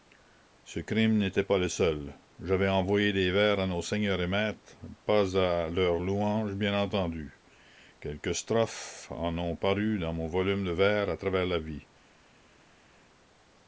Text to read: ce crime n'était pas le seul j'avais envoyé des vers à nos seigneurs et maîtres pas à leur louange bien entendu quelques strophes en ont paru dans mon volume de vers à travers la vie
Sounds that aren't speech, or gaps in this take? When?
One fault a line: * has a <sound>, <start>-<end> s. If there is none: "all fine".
all fine